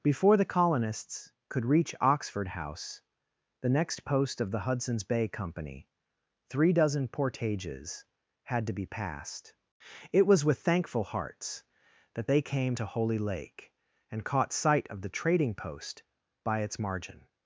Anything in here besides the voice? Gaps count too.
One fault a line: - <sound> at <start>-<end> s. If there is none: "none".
none